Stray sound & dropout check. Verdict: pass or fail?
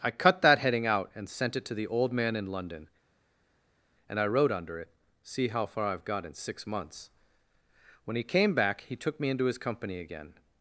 pass